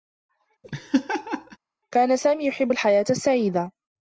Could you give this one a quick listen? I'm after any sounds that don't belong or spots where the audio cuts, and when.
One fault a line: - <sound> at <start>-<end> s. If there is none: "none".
- laugh at 0.6-1.6 s